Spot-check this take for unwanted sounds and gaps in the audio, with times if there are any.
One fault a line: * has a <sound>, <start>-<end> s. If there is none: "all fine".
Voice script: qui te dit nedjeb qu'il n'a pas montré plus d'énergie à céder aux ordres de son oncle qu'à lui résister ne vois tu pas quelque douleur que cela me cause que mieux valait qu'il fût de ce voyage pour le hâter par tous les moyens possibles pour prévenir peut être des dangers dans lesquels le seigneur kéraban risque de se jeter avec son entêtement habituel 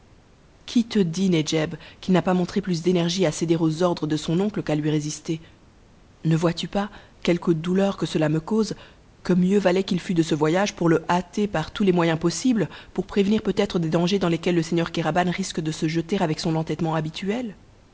all fine